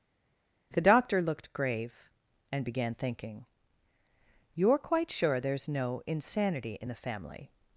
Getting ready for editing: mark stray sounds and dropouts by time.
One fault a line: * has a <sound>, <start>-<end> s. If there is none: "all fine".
all fine